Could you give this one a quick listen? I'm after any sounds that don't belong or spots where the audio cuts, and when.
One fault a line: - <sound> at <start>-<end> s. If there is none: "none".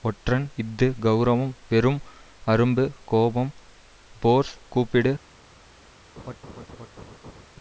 - laugh at 6.2-7.5 s